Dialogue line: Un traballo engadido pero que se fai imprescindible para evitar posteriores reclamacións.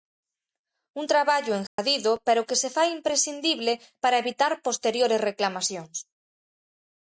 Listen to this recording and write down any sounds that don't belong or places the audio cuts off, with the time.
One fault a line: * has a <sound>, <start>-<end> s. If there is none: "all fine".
* has a dropout, 1.7-1.8 s